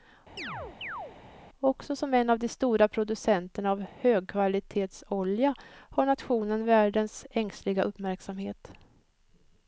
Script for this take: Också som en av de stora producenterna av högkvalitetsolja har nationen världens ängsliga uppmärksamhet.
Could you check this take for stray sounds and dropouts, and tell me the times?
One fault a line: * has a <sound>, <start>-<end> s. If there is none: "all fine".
* has a chirp, 0.4-1.2 s